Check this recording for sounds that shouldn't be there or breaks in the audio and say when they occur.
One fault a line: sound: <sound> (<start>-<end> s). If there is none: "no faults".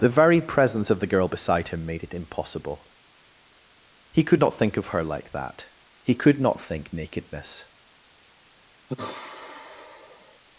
sound: sigh (8.9-10.4 s)